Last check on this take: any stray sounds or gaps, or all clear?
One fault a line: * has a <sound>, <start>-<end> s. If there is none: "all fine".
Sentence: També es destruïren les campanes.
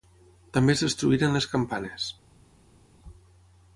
all fine